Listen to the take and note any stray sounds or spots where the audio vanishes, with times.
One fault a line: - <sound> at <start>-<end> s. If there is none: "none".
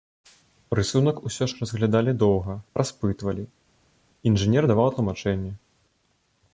none